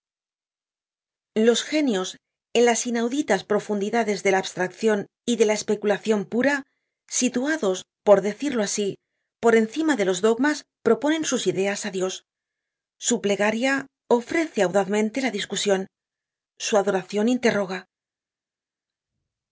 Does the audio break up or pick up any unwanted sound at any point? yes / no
no